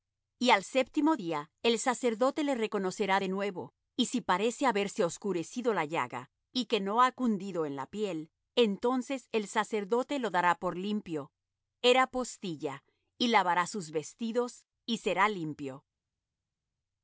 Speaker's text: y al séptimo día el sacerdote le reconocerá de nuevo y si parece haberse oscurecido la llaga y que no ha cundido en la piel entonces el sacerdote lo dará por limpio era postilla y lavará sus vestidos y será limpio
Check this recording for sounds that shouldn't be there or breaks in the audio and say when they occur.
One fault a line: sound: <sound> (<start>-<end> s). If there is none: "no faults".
no faults